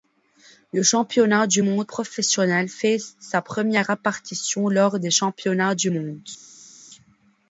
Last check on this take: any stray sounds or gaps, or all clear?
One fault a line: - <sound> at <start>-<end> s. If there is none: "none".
none